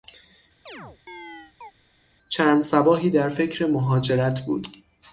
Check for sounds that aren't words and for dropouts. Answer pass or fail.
fail